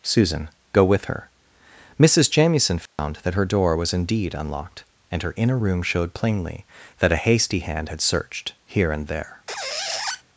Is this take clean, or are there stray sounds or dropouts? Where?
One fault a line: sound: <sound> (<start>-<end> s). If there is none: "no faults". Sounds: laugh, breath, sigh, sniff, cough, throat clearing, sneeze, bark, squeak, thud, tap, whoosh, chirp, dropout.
sound: dropout (2.9-3.0 s)
sound: squeak (9.5-10.2 s)